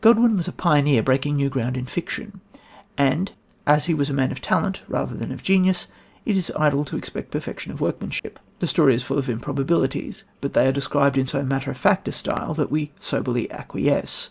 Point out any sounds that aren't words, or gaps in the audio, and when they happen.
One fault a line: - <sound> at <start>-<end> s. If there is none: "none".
- dropout at 8.2-8.2 s